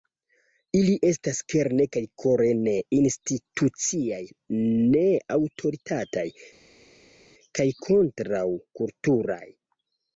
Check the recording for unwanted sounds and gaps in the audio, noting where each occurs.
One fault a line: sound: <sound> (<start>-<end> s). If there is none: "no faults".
no faults